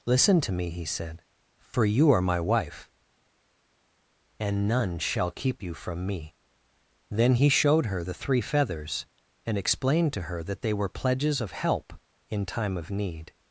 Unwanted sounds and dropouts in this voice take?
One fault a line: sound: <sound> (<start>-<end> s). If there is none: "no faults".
no faults